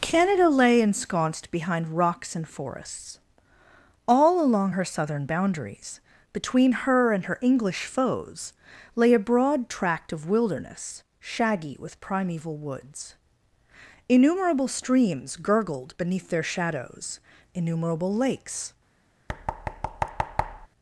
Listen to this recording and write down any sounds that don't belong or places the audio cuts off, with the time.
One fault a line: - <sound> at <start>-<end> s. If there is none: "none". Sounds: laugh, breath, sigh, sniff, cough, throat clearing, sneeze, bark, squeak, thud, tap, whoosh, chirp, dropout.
- thud at 19.3-20.7 s